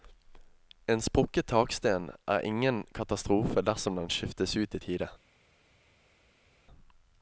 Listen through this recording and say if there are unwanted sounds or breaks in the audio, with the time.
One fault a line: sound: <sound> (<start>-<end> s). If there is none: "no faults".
no faults